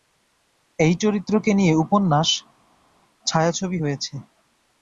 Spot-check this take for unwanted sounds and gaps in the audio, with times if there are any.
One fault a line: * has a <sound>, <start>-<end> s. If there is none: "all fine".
all fine